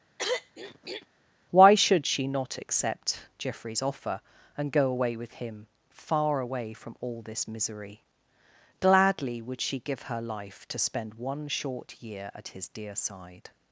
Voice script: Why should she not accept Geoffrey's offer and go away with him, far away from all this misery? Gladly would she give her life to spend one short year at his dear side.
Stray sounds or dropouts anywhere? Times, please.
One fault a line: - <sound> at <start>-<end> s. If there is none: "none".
- throat clearing at 0.2-1.1 s